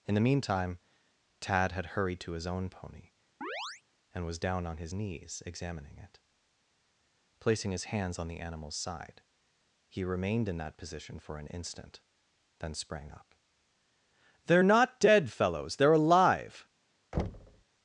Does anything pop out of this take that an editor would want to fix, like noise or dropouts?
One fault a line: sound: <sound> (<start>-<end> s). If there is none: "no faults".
sound: chirp (3.4-3.8 s)
sound: thud (17.1-17.6 s)